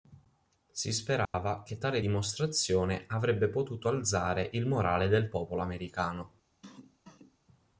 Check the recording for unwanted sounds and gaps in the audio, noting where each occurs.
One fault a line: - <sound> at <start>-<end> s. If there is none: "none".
- dropout at 1.2-1.3 s
- cough at 6.6-7.4 s